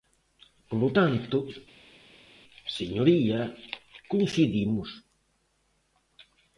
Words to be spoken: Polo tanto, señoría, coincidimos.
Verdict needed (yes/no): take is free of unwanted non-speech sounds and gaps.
yes